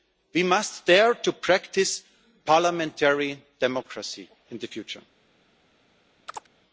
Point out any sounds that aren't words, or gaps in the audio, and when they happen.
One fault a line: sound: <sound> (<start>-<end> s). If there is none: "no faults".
sound: chirp (6.3-6.5 s)